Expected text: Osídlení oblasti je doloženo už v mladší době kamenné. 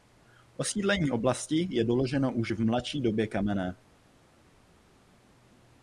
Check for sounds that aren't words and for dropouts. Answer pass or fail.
pass